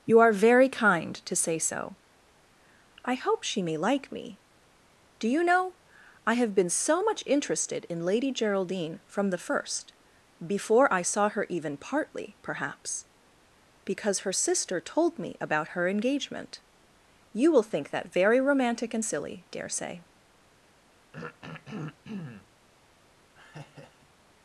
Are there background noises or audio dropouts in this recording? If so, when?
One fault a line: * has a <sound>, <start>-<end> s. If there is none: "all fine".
* has a throat clearing, 21.1-22.5 s
* has a laugh, 23.4-24.2 s